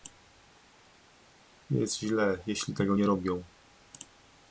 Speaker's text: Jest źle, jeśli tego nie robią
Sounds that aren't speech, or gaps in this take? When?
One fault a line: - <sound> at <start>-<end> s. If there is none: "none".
none